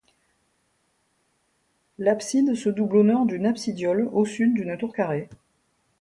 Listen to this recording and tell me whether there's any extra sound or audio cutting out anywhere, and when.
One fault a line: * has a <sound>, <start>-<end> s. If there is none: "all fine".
all fine